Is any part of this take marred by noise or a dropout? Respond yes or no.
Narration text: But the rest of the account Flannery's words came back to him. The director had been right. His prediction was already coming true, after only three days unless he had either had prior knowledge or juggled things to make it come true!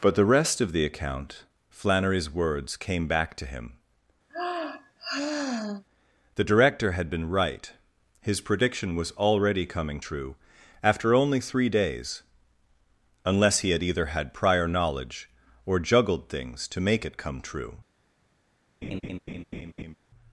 yes